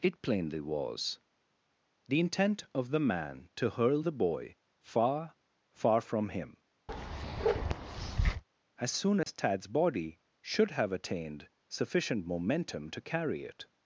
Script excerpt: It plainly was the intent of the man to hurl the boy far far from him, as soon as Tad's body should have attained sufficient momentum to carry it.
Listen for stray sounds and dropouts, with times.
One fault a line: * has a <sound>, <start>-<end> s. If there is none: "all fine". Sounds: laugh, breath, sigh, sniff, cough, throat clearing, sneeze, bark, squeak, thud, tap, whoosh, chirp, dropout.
* has a bark, 6.9-8.4 s
* has a dropout, 9.2-9.3 s